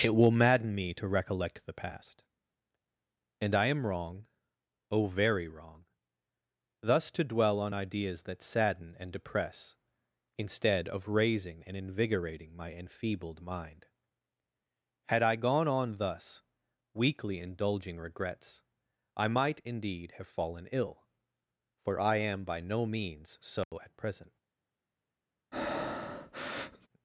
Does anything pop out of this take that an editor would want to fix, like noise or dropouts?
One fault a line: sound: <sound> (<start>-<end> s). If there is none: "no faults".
sound: dropout (23.6-23.7 s)
sound: breath (25.5-26.9 s)